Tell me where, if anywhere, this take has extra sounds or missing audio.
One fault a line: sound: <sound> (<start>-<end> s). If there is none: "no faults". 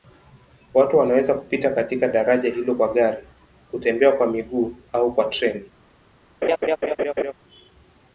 sound: laugh (6.4-7.3 s)